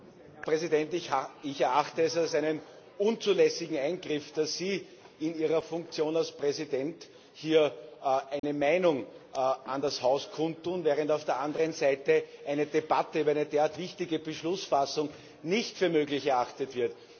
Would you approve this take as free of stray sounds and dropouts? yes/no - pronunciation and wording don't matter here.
no